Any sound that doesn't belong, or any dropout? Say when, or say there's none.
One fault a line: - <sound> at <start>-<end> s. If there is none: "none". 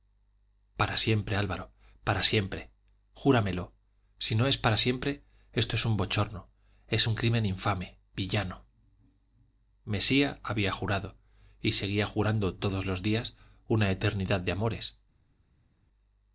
none